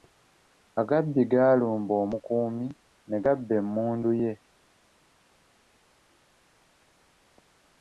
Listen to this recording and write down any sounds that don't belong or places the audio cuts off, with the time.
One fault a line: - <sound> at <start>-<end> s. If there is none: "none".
none